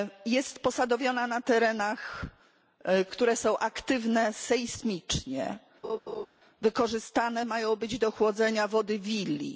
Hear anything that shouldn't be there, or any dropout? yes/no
yes